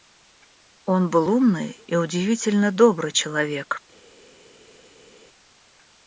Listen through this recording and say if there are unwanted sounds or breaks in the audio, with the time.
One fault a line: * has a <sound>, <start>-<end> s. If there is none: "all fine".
all fine